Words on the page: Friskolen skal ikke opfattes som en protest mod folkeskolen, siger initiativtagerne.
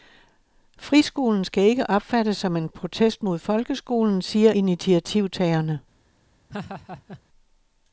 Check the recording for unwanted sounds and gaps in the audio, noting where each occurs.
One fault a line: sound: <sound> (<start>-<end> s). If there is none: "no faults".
sound: laugh (6.5-7.2 s)